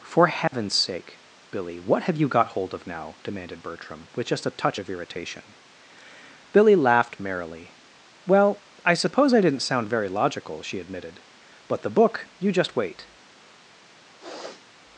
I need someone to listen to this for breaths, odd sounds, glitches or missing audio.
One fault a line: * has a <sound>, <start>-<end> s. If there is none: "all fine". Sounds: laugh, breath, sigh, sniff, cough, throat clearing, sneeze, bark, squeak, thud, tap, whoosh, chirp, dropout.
* has a dropout, 0.5-0.5 s
* has a sniff, 14.2-14.7 s